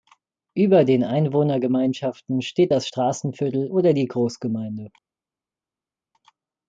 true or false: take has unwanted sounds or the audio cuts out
false